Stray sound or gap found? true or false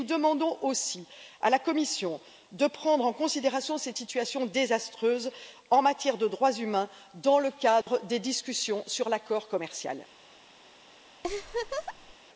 true